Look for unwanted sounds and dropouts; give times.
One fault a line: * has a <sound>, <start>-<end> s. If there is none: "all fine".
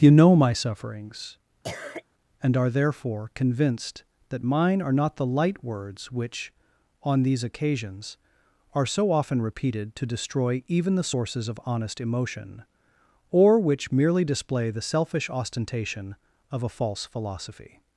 * has a cough, 1.6-2.0 s